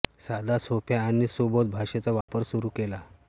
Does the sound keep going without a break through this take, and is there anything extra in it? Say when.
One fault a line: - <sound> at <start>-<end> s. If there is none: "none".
- dropout at 2.2-2.3 s